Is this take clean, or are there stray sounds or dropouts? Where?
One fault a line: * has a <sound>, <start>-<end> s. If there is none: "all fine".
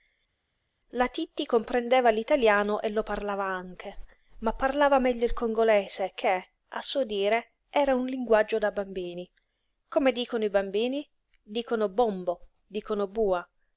all fine